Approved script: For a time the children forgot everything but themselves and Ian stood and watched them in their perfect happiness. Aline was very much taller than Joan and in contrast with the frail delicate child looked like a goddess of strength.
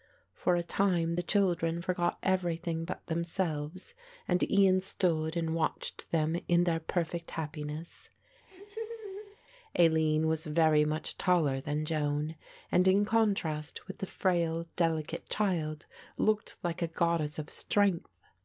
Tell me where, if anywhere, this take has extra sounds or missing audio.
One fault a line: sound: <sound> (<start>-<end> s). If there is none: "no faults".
sound: laugh (8.5-9.4 s)